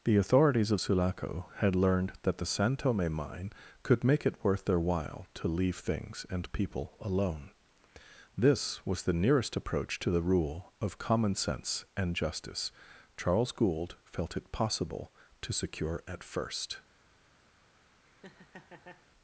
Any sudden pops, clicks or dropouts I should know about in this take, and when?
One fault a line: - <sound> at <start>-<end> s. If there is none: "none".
- laugh at 18.0-19.1 s